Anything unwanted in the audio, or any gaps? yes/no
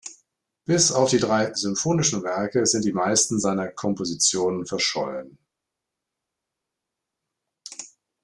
no